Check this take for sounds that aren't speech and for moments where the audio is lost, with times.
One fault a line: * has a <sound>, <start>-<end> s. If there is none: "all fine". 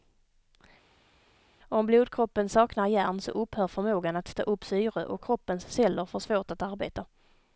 all fine